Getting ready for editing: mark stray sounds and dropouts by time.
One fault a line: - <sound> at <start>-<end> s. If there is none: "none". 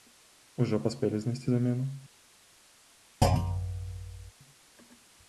- thud at 3.2-4.3 s